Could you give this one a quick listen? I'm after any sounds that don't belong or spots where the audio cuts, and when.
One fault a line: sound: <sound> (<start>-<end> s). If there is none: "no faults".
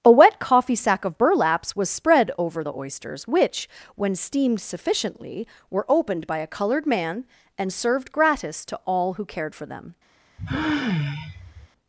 sound: sigh (10.4-11.7 s)